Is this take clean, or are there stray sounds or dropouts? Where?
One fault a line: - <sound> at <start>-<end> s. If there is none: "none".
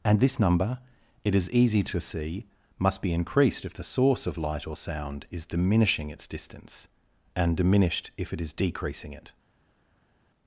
none